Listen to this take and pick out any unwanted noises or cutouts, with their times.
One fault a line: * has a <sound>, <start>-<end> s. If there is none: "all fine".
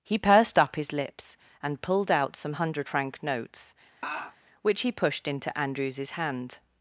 * has a laugh, 4.0-4.4 s